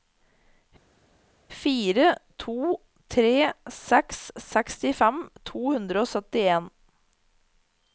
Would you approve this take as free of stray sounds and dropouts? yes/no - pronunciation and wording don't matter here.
yes